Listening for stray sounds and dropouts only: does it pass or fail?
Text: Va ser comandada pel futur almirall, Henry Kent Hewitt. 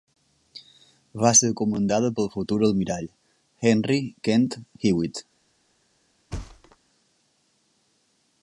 fail